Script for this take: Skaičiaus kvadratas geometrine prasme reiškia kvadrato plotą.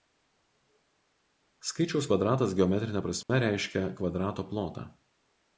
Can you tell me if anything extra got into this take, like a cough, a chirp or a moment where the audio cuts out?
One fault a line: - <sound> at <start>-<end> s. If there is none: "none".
- dropout at 3.2-3.3 s